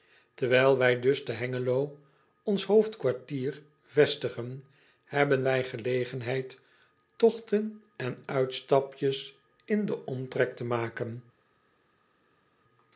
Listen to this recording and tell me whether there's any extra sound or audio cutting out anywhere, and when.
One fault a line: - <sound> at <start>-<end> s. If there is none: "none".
none